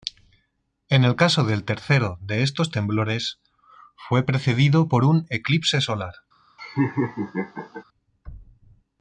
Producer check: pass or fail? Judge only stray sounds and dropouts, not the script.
fail